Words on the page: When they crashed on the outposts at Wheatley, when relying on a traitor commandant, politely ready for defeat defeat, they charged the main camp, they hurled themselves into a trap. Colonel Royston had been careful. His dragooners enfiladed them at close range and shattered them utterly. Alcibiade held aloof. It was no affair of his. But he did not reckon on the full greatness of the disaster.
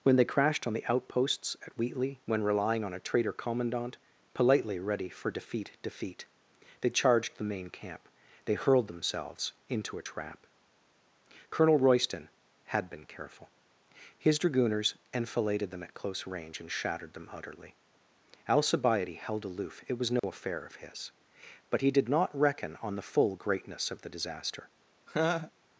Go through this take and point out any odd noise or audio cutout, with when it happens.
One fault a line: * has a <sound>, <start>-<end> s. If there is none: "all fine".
* has a dropout, 20.2-20.2 s
* has a laugh, 25.1-25.5 s